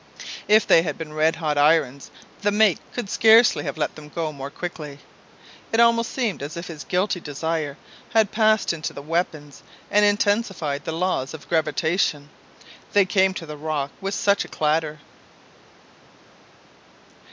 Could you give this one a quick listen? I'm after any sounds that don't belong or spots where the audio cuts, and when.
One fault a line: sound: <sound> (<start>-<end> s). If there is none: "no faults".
no faults